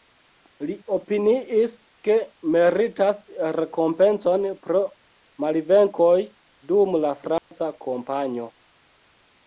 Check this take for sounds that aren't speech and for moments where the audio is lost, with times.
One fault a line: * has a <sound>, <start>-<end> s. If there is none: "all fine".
* has a dropout, 7.4-7.5 s